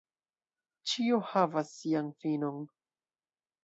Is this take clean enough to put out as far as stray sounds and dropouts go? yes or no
yes